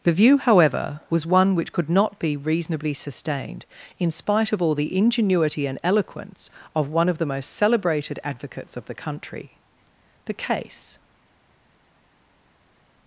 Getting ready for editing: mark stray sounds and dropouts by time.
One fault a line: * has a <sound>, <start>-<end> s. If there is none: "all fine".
all fine